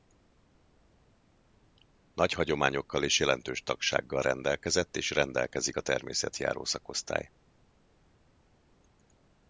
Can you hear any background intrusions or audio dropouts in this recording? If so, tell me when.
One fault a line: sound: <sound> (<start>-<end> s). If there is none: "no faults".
no faults